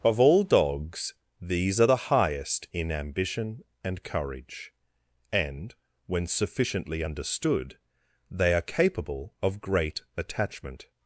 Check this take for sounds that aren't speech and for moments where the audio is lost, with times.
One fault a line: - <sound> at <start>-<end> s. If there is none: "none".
none